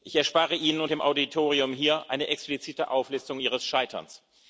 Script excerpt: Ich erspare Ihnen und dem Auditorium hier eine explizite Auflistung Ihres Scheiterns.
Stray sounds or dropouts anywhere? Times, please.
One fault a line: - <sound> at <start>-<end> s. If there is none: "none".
none